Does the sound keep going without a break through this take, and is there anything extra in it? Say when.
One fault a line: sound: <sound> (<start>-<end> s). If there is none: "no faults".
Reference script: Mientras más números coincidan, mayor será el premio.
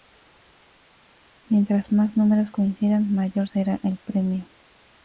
no faults